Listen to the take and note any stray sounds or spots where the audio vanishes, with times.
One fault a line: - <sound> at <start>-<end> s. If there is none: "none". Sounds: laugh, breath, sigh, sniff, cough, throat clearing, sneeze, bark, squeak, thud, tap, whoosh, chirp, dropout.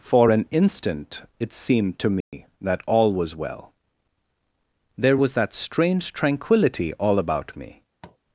- dropout at 2.2-2.3 s
- tap at 8.0-8.2 s